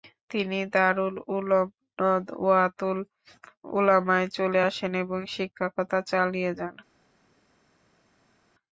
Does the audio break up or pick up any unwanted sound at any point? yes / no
no